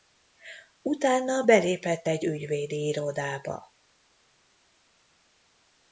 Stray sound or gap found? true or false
false